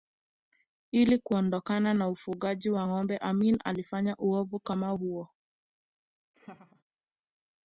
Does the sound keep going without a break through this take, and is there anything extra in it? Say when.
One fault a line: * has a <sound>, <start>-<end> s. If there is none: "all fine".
* has a laugh, 6.3-6.8 s